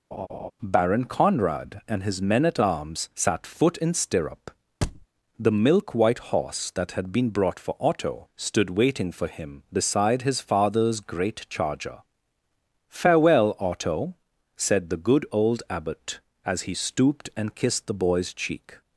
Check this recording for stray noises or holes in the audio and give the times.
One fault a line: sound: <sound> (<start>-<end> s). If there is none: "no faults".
sound: laugh (0.1-0.5 s)
sound: thud (4.8-5.1 s)